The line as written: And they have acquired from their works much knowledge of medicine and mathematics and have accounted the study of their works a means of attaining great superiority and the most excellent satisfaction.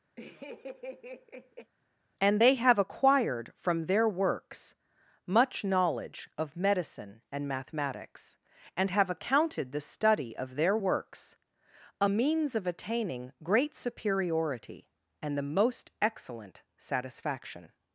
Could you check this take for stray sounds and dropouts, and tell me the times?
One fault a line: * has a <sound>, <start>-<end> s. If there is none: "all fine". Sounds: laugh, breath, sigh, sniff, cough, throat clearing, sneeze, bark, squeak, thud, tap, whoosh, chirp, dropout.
* has a laugh, 0.2-1.7 s